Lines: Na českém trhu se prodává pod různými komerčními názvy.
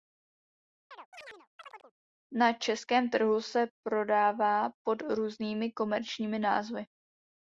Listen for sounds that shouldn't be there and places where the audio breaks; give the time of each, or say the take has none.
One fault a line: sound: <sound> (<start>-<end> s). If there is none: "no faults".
sound: chirp (0.9-1.9 s)